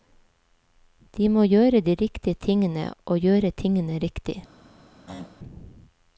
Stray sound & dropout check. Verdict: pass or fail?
fail